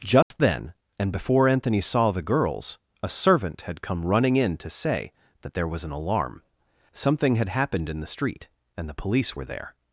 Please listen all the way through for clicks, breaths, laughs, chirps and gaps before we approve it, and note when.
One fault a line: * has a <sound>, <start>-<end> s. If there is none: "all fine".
* has a dropout, 0.2-0.3 s